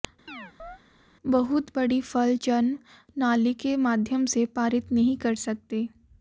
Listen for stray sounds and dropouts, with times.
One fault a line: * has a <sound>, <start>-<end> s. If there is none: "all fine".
* has a chirp, 0.3-0.8 s